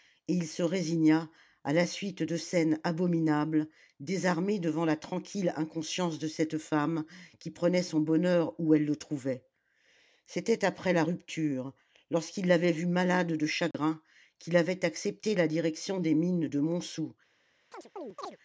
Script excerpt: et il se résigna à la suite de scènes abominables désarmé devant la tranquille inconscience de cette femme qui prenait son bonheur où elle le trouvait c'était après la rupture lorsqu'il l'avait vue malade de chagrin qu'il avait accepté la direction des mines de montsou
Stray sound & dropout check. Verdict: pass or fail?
fail